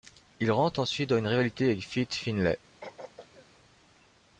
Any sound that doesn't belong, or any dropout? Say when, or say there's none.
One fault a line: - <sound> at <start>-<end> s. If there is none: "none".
- throat clearing at 2.8-3.5 s